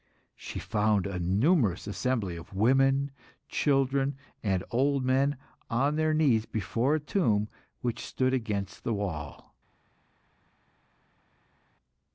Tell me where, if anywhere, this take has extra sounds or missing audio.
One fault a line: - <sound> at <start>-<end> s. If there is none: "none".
none